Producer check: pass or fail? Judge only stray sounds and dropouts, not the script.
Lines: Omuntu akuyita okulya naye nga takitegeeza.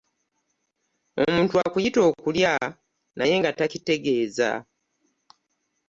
pass